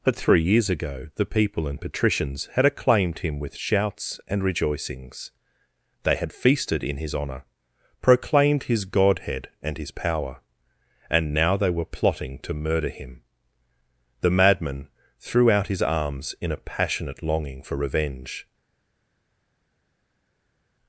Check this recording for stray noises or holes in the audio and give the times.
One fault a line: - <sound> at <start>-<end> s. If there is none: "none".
none